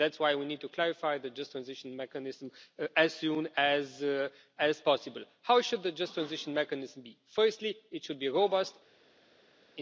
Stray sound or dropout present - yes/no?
no